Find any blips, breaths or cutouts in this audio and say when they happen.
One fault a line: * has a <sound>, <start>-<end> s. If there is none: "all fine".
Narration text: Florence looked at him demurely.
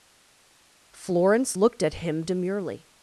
all fine